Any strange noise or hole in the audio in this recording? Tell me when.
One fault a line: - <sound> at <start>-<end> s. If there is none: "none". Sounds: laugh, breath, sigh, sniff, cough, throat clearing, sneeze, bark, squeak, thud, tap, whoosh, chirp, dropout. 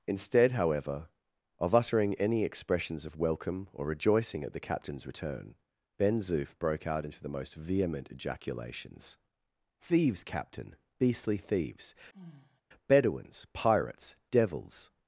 - sigh at 12.1-12.6 s